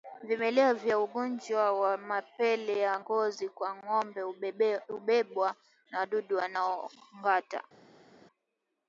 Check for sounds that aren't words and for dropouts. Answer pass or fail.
pass